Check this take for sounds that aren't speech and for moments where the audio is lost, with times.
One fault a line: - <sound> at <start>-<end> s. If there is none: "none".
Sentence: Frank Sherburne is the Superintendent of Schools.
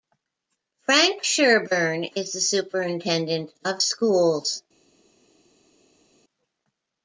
none